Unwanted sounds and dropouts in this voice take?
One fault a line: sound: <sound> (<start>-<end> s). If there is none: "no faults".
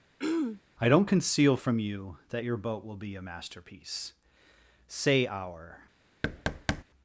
sound: throat clearing (0.2-0.6 s)
sound: thud (6.2-6.8 s)